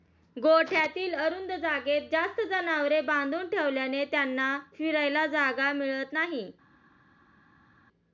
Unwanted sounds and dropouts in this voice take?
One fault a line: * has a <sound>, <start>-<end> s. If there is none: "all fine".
all fine